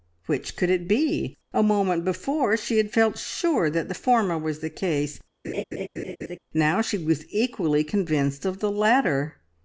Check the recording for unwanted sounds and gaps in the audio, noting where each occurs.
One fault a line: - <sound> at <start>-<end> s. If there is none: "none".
- laugh at 5.4-6.4 s